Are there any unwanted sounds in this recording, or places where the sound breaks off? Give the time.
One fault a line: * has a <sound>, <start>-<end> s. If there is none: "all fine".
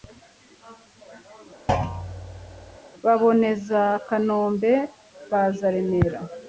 * has a thud, 1.7-2.8 s